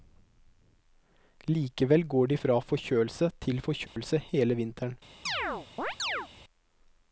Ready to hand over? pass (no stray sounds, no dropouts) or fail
fail